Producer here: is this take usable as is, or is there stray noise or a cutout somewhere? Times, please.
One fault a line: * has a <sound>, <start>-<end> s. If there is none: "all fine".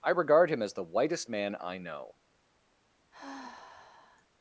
* has a sigh, 3.1-4.3 s